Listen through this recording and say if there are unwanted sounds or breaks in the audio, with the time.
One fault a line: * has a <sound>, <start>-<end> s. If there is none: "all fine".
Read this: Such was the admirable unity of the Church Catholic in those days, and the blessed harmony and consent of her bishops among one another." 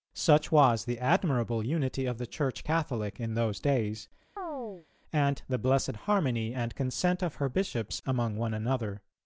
* has a chirp, 4.4-4.9 s